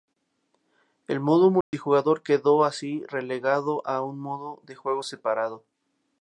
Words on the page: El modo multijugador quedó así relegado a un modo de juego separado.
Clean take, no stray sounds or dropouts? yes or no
no